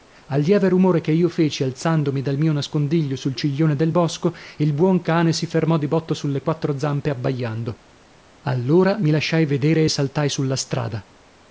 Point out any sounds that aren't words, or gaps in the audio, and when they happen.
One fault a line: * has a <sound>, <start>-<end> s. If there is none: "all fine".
all fine